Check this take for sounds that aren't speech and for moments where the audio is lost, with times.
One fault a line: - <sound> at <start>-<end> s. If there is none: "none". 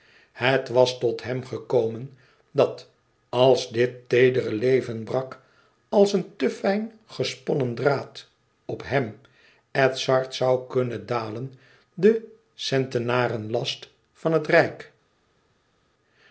none